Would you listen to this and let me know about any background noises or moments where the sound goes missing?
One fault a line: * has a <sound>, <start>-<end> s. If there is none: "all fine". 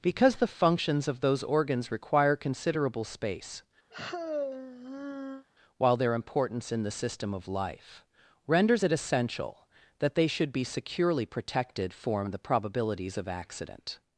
* has a sigh, 3.9-5.5 s